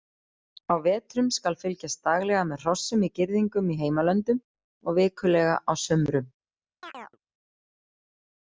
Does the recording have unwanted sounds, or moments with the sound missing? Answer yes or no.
yes